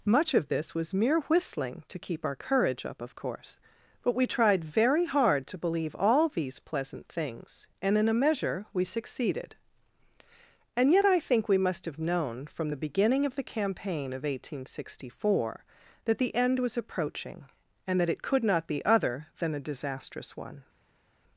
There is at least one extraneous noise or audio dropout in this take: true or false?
false